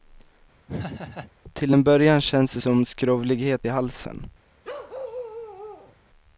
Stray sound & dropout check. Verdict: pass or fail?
fail